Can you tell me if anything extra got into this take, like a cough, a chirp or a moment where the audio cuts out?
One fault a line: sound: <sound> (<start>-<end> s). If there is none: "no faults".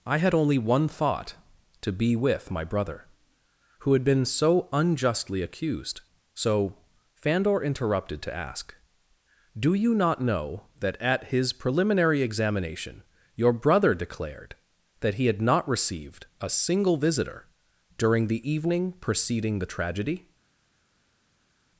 no faults